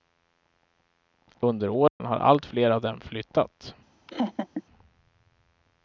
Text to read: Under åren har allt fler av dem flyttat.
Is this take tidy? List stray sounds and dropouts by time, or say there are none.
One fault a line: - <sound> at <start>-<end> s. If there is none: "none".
- dropout at 1.9-2.0 s
- laugh at 4.1-4.6 s